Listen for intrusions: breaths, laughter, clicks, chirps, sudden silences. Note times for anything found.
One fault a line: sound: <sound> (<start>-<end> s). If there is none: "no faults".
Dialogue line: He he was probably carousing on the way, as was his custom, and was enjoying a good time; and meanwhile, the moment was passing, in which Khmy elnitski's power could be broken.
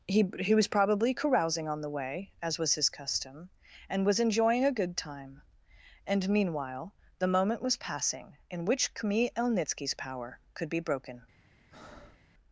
sound: breath (11.7-12.3 s)